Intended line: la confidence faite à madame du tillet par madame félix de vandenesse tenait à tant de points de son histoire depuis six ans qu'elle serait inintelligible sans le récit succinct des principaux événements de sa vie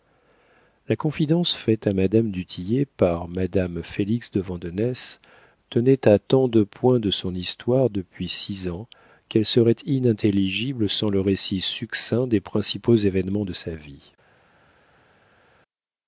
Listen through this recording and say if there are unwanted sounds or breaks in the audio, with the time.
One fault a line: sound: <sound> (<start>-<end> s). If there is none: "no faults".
no faults